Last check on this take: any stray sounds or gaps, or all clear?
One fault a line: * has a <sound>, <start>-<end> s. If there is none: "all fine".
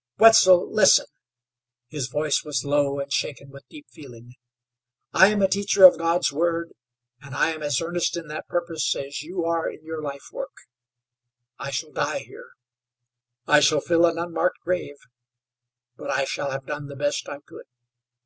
all fine